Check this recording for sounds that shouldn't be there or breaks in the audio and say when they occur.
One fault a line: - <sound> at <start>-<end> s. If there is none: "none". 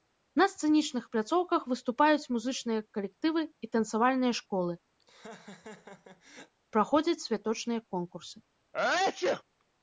- laugh at 5.0-6.5 s
- sneeze at 8.7-9.4 s